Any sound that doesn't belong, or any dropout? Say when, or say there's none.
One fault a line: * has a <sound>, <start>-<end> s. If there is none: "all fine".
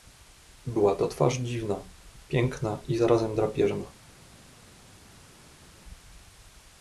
all fine